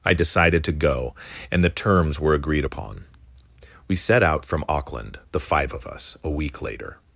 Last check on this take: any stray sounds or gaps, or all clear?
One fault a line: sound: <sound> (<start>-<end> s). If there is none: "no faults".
no faults